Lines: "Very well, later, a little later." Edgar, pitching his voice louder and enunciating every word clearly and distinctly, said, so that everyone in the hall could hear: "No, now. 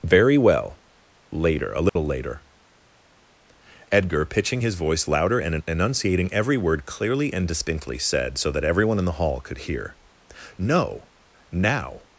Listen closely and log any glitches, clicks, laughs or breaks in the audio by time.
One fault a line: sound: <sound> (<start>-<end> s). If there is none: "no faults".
sound: dropout (1.9-2.0 s)